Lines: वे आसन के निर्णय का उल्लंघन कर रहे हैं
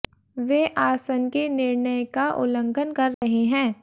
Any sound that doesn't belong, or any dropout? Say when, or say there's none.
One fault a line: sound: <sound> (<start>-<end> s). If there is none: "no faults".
sound: dropout (3.1-3.2 s)